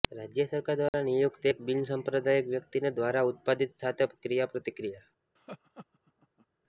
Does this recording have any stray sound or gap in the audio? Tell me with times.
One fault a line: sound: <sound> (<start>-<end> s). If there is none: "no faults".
sound: dropout (0.9-0.9 s)
sound: laugh (5.4-6.5 s)